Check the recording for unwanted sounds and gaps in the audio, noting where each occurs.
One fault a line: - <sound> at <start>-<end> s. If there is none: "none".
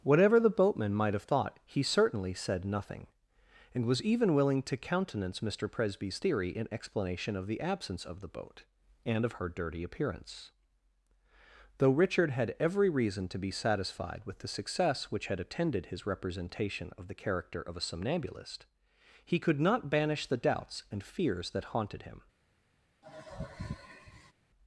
- sigh at 23.0-24.3 s